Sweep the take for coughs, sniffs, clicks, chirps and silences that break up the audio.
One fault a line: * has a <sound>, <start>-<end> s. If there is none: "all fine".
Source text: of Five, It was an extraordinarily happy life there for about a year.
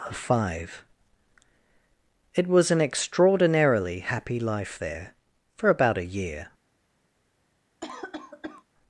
* has a cough, 7.8-8.6 s